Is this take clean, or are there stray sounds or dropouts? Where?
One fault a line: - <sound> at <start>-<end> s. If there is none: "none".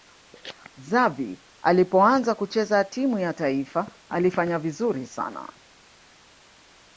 none